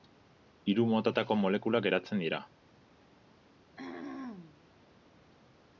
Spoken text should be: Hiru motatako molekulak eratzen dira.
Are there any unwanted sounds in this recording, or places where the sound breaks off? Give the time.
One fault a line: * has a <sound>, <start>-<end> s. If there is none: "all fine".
* has a throat clearing, 3.8-4.7 s